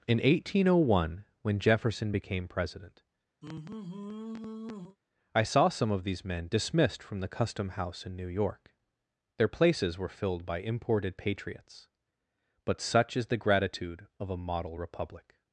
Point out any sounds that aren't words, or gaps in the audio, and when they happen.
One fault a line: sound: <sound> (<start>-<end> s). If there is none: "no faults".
sound: sigh (3.4-5.0 s)